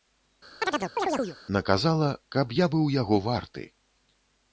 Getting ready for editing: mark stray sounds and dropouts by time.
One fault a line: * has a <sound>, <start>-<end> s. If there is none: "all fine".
* has a chirp, 0.6-1.4 s